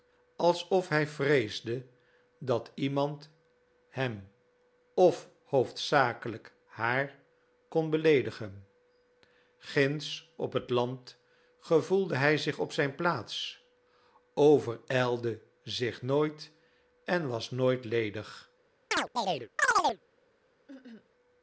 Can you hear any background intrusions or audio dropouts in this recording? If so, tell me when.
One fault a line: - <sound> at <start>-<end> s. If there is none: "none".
- chirp at 18.9-20.0 s
- cough at 20.7-21.1 s